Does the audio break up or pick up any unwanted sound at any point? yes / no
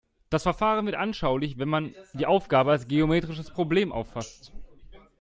no